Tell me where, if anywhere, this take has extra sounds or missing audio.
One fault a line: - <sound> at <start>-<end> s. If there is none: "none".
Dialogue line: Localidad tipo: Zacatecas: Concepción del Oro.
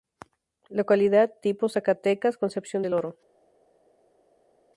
none